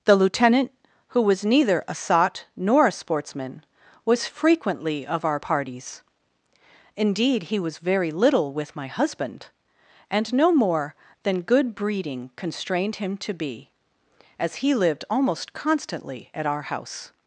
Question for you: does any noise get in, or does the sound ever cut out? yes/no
no